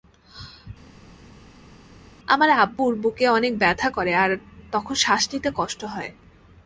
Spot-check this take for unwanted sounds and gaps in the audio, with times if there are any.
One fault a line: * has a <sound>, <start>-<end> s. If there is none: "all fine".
all fine